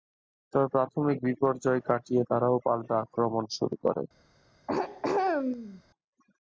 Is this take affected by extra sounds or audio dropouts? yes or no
yes